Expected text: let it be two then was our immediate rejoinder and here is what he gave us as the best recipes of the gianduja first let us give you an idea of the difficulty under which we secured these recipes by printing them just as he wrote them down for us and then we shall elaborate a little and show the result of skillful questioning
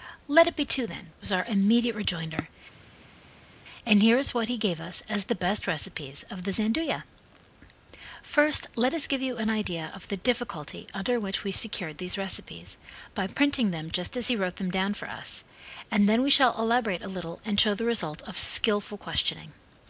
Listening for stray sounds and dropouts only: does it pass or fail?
pass